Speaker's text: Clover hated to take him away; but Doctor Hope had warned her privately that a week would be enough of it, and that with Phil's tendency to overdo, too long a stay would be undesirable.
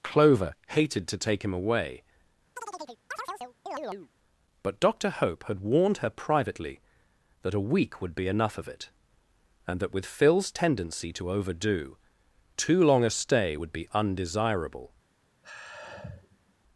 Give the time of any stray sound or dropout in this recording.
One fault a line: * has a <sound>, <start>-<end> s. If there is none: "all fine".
* has a chirp, 2.6-4.1 s
* has a sigh, 15.4-16.5 s